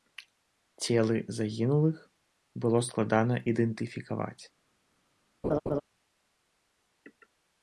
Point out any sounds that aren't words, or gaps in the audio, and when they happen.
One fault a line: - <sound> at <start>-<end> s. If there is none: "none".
- laugh at 5.4-5.8 s